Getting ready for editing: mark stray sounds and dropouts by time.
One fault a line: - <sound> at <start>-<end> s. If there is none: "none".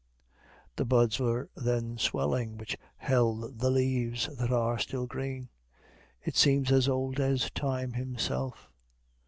none